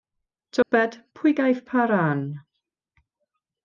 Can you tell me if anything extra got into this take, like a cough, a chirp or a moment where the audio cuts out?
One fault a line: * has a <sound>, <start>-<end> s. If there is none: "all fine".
* has a dropout, 0.6-0.7 s